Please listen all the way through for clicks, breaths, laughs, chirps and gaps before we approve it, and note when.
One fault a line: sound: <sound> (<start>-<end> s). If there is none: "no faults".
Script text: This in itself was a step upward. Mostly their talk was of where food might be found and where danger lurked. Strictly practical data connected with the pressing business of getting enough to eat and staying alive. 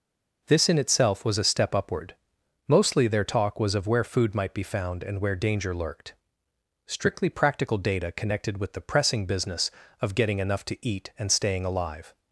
no faults